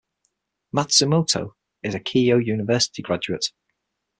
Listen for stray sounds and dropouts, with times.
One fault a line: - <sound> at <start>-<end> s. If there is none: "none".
none